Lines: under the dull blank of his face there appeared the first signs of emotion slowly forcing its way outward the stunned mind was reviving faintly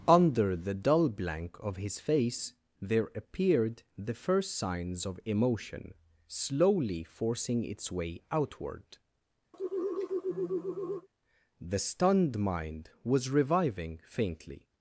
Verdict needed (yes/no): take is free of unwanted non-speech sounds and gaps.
no